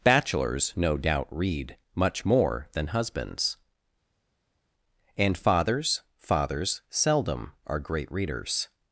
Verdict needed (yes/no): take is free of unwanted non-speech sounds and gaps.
yes